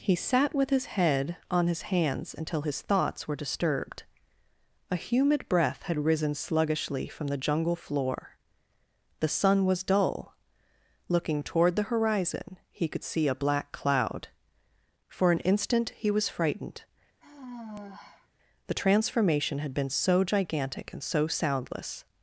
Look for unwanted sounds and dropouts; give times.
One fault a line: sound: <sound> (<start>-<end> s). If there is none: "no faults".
sound: sigh (17.2-18.3 s)